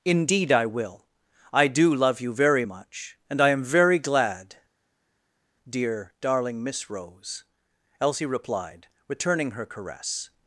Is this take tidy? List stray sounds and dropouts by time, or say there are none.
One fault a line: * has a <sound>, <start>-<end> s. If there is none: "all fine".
all fine